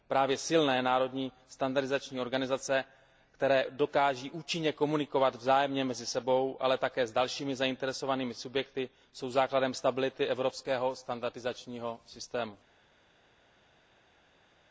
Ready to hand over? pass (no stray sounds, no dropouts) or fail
pass